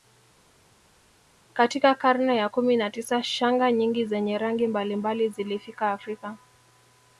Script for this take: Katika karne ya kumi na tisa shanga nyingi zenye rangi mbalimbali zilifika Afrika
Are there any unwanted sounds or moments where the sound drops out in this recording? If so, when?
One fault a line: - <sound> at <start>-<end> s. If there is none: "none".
none